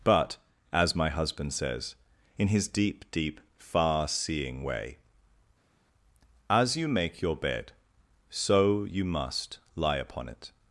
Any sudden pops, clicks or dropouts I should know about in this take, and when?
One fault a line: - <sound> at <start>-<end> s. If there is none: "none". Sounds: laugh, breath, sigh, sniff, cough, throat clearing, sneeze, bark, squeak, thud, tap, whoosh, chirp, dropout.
none